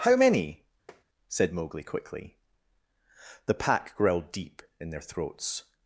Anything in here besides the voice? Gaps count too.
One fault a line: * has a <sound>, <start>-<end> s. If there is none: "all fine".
* has a tap, 0.9-1.0 s